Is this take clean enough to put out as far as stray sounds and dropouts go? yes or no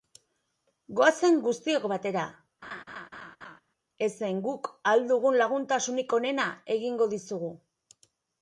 no